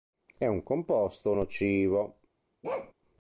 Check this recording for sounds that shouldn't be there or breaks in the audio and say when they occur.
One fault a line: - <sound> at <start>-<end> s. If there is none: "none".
- bark at 2.6-2.9 s